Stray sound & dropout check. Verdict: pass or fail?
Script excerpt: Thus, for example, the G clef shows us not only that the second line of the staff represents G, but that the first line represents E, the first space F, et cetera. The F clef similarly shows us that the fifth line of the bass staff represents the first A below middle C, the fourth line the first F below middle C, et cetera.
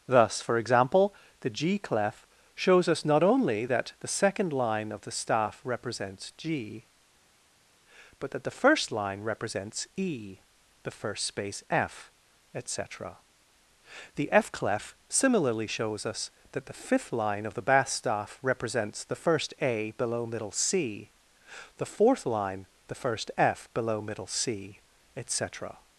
pass